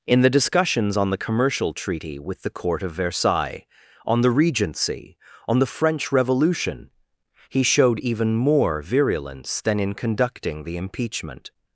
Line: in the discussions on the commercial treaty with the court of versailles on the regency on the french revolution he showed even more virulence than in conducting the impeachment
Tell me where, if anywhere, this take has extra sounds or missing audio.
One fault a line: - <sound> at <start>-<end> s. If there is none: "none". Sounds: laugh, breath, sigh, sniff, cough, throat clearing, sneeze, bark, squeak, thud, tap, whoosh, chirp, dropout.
none